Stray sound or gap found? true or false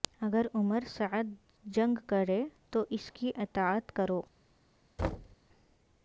true